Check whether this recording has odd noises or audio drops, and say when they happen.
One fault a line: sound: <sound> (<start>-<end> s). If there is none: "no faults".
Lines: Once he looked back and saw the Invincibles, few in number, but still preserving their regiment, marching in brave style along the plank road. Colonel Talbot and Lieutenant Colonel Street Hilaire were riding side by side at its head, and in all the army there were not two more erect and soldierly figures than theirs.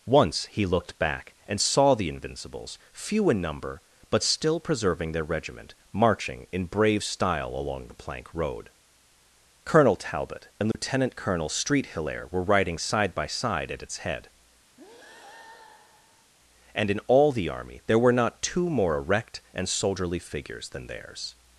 sound: dropout (10.7-10.7 s)
sound: breath (14.8-16.3 s)